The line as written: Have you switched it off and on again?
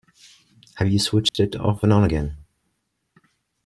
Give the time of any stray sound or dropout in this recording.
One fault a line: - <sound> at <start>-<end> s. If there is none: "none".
- dropout at 1.3-1.3 s